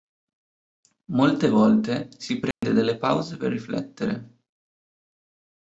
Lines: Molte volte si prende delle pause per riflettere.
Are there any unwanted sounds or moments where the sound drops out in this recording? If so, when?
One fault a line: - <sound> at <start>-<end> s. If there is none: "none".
- dropout at 2.5-2.6 s